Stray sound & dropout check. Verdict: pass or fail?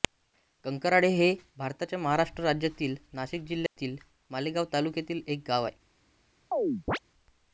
fail